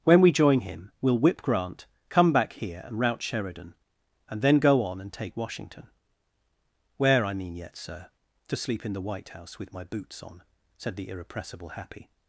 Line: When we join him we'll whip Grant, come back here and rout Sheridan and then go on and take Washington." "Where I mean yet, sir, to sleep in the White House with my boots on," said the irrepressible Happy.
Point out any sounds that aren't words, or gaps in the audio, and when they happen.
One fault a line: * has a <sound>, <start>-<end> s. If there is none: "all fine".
all fine